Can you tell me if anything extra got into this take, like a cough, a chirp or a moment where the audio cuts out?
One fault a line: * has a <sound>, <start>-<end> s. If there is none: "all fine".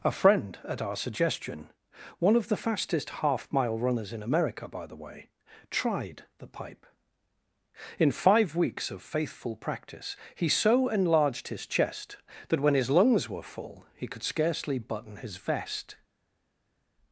all fine